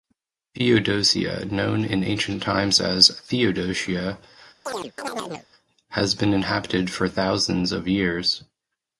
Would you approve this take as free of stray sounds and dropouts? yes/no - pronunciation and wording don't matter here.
no